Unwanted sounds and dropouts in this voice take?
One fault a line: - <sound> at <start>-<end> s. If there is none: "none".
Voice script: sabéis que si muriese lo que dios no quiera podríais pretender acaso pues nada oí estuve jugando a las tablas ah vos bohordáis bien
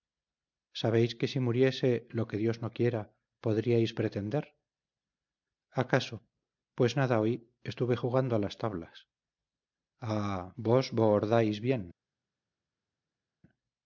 none